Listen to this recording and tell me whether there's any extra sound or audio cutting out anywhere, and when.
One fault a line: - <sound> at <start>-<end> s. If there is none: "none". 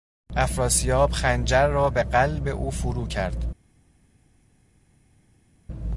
none